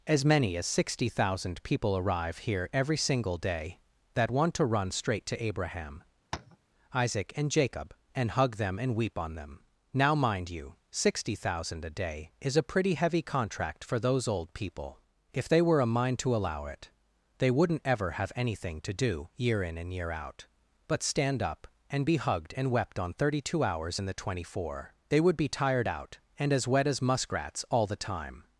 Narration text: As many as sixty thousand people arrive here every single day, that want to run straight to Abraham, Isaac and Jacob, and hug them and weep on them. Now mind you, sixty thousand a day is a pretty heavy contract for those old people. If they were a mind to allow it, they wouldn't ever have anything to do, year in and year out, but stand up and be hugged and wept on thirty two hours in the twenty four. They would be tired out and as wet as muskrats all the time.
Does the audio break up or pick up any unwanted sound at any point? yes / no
yes